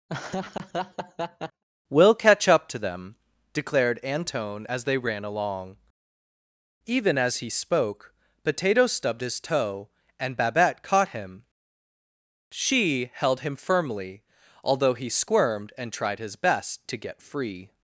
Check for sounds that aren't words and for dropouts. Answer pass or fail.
fail